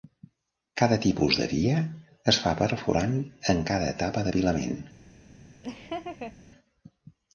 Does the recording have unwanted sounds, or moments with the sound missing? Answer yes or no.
yes